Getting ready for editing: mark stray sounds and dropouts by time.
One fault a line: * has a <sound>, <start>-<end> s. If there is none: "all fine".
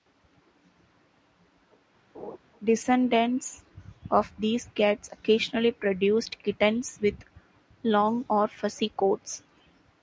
* has a laugh, 2.1-2.4 s